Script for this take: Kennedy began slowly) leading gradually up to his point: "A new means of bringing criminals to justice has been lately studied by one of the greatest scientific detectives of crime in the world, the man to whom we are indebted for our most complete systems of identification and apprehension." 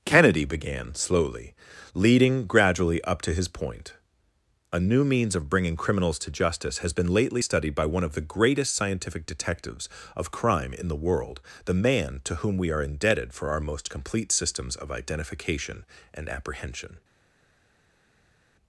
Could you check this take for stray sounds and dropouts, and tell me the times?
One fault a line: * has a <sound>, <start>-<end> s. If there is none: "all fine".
all fine